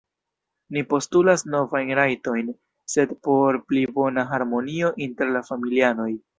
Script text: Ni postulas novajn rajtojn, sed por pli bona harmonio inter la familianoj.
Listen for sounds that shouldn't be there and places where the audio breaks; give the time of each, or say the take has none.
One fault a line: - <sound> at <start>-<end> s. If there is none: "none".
none